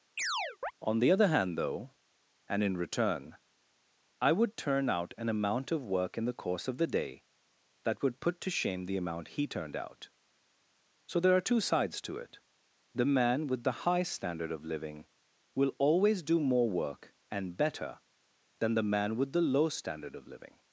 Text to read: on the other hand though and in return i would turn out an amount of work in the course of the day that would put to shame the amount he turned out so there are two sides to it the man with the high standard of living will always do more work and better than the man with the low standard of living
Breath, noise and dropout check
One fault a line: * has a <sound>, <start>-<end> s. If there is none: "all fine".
* has a chirp, 0.2-0.7 s